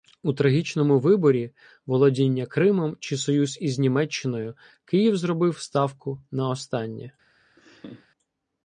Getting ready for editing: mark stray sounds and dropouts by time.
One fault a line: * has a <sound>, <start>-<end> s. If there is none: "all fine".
* has a laugh, 7.6-8.1 s